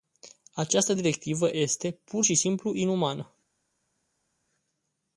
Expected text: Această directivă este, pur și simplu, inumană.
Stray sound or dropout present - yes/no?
no